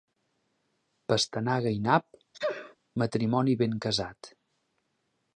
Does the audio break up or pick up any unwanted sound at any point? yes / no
yes